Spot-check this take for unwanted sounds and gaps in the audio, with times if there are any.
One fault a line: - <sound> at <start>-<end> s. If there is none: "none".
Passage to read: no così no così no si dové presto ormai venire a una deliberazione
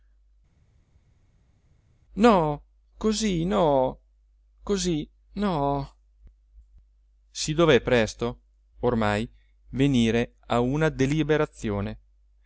none